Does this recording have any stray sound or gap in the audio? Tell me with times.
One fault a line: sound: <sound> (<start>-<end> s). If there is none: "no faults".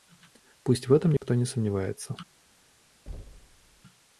sound: dropout (1.2-1.2 s)
sound: thud (3.1-3.8 s)